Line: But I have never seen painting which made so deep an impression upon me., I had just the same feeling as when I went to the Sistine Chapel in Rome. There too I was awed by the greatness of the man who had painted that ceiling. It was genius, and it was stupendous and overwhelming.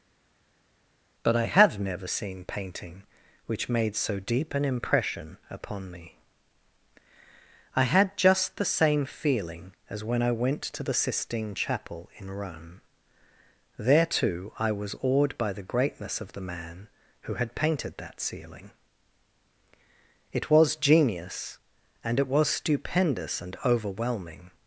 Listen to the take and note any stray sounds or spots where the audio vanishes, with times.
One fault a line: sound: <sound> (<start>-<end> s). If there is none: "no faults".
no faults